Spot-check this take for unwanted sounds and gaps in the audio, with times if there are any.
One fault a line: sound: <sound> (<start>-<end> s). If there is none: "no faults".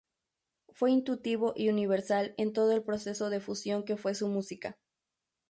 no faults